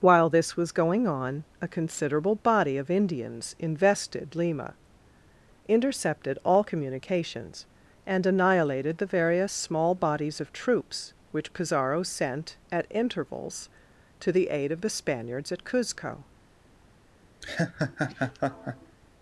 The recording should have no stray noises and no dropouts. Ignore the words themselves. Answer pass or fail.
fail